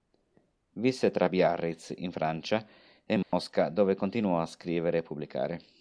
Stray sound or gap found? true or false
true